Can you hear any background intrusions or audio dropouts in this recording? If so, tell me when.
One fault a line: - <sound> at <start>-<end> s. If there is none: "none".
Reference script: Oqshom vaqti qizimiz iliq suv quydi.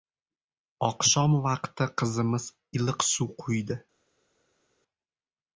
none